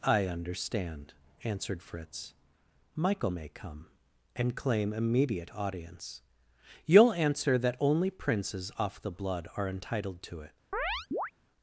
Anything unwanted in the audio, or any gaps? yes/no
yes